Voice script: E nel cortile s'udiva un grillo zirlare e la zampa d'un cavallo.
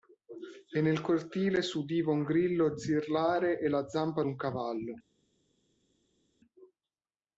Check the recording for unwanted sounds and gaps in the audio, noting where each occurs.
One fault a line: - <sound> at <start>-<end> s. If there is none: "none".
none